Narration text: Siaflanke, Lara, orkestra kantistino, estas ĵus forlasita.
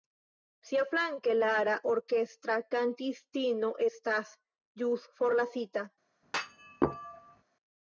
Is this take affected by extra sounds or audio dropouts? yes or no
yes